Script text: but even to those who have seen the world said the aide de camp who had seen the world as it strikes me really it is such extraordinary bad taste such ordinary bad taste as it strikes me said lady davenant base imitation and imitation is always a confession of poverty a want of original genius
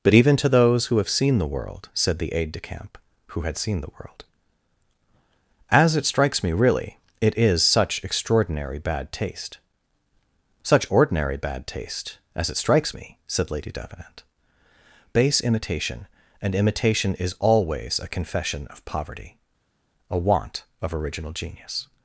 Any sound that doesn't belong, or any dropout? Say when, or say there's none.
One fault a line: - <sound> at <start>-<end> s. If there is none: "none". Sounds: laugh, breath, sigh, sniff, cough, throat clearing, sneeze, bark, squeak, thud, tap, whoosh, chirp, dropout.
none